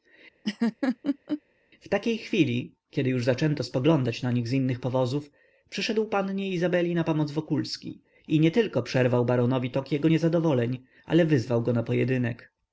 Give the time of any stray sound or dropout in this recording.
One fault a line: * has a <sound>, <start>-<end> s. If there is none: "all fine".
* has a laugh, 0.4-1.4 s